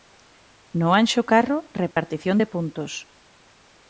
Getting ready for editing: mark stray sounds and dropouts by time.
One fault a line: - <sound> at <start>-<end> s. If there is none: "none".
- dropout at 1.9-2.0 s